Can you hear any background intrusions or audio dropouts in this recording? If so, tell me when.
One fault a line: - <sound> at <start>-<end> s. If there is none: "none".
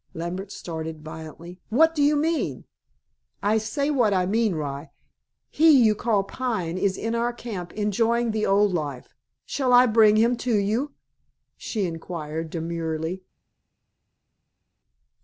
none